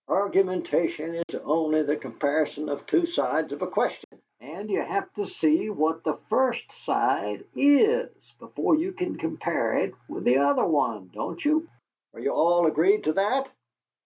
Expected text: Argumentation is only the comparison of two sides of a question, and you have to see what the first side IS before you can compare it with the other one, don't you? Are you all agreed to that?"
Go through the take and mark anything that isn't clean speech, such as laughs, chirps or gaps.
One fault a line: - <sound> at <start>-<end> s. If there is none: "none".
- dropout at 1.2-1.3 s
- dropout at 4.0-4.1 s